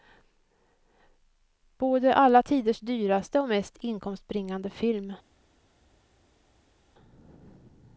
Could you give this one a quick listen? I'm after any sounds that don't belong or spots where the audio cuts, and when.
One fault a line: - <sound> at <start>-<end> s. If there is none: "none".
none